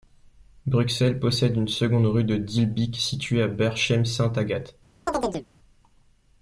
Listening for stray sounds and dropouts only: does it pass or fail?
fail